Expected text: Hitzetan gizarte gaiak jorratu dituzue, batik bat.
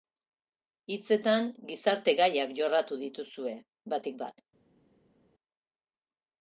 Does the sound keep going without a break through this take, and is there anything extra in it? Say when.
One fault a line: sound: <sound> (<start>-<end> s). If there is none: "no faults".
no faults